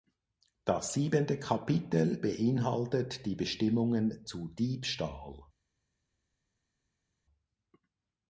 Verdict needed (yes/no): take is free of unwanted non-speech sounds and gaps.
yes